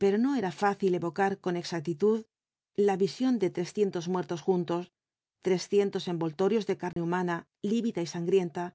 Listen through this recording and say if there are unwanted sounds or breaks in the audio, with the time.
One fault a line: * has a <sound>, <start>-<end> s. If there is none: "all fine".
* has a dropout, 6.9-7.0 s